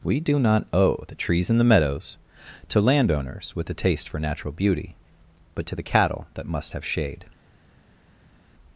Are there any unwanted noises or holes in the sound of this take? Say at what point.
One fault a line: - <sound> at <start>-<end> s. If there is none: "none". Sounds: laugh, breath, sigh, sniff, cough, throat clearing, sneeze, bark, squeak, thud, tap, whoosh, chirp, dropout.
none